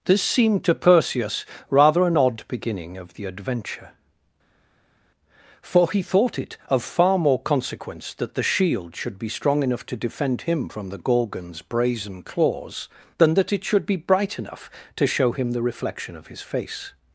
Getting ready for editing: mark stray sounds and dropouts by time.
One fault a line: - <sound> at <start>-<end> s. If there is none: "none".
none